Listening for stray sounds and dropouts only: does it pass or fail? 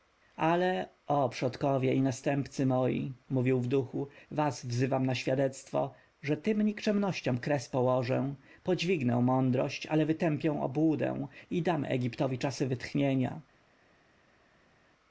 pass